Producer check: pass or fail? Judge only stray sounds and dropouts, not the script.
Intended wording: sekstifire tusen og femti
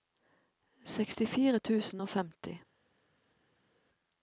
pass